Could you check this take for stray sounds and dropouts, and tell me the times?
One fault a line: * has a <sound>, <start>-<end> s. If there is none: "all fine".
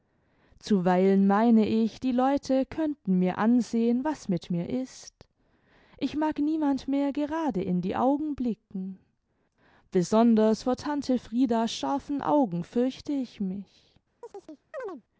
* has a chirp, 14.2-15.0 s